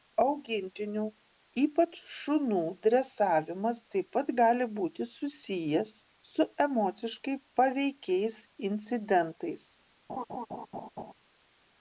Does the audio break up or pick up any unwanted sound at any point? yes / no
yes